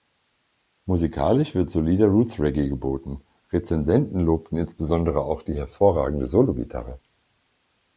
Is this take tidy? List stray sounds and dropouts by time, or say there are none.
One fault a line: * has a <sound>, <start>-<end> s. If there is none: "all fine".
all fine